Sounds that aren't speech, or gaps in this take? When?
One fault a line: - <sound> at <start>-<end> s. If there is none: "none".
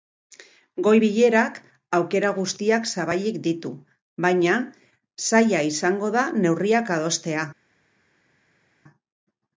none